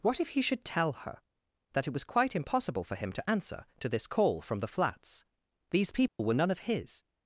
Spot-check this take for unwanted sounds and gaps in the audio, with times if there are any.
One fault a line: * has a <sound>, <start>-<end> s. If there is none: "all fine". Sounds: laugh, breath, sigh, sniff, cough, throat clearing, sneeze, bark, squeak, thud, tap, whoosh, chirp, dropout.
* has a dropout, 6.1-6.2 s